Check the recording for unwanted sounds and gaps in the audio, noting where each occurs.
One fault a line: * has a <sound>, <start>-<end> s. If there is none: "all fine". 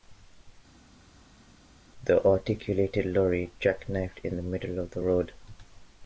all fine